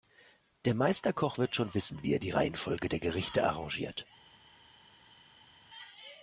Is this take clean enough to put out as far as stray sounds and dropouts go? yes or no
yes